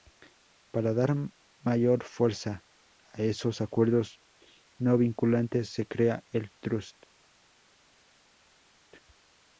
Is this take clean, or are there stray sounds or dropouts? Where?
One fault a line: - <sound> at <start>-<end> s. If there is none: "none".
none